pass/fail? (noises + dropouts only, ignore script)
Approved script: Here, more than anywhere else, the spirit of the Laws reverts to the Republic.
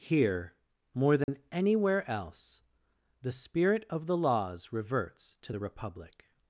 fail